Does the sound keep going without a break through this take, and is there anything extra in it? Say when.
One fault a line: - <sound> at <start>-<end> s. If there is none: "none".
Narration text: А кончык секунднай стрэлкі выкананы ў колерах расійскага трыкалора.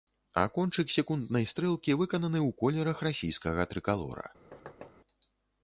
- thud at 4.5-4.9 s